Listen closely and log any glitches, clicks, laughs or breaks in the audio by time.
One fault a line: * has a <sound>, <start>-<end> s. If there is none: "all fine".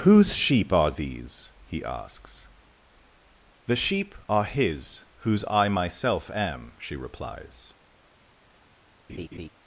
* has a laugh, 9.1-9.5 s